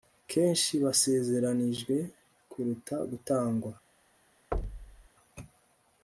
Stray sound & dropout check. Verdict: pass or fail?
fail